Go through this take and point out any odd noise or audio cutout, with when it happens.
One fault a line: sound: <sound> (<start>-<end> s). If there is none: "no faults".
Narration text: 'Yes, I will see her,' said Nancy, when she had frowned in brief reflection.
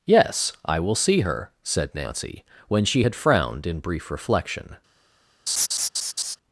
sound: laugh (5.5-6.4 s)